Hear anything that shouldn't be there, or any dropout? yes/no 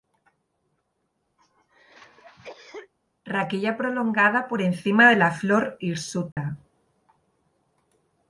yes